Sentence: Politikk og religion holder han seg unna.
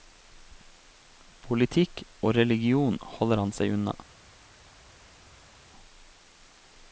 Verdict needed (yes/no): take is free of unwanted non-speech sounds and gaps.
yes